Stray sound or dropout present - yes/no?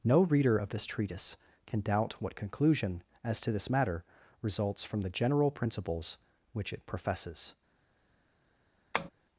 yes